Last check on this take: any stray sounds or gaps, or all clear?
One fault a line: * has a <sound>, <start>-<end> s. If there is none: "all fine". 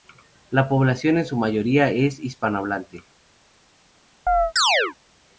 * has a chirp, 4.3-5.0 s